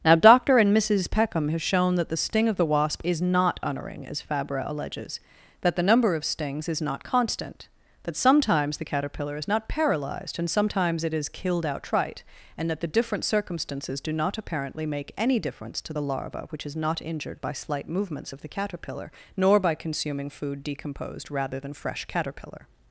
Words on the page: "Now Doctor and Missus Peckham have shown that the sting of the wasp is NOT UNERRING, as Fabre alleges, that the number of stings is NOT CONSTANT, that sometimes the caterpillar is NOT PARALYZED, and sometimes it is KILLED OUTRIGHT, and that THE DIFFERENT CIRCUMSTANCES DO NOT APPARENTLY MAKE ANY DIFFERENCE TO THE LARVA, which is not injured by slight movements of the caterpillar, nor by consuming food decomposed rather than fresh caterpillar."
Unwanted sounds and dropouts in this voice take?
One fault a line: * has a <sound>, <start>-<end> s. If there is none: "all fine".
all fine